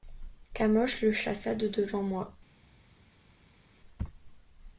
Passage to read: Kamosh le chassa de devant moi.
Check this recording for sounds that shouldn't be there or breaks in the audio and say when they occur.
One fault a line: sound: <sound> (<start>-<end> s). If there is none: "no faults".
no faults